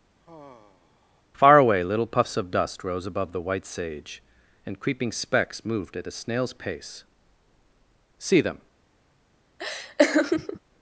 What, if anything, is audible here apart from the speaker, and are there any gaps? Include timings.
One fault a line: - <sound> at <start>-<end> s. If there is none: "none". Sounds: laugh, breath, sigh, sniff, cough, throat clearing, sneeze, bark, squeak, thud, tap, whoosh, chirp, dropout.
- sigh at 0.2-1.2 s
- laugh at 9.6-10.6 s